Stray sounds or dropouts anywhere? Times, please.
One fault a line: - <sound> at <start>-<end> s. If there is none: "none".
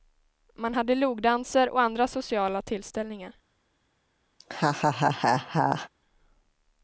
- laugh at 4.4-5.9 s